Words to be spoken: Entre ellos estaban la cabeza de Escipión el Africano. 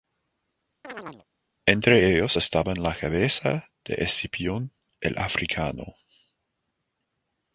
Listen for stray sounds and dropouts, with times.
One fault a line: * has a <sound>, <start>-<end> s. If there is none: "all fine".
* has a chirp, 0.8-1.3 s